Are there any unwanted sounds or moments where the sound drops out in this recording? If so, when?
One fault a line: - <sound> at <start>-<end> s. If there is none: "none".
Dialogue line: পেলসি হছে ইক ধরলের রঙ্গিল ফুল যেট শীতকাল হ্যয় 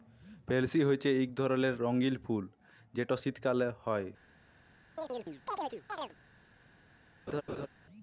- chirp at 5.0-6.2 s
- laugh at 7.3-7.7 s